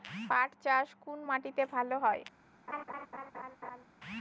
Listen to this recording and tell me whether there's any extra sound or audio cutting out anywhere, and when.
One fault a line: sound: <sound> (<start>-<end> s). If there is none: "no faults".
sound: laugh (2.7-3.8 s)